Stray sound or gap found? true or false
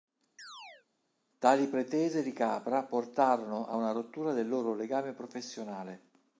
true